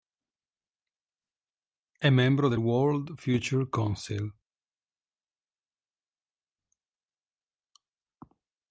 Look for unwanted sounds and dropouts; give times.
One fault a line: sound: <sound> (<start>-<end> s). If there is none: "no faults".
no faults